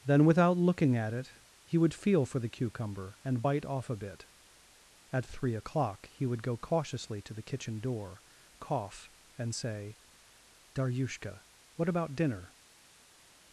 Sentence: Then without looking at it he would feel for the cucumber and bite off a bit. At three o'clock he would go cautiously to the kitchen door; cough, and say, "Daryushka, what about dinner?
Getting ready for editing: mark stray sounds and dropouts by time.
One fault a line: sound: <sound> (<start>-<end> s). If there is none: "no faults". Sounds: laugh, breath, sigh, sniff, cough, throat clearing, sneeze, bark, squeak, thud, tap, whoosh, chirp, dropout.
no faults